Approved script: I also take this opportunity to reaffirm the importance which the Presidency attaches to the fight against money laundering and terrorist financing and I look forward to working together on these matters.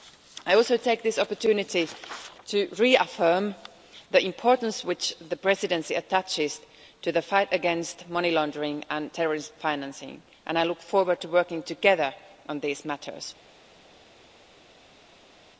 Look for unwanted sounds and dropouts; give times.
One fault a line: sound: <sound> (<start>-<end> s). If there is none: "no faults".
no faults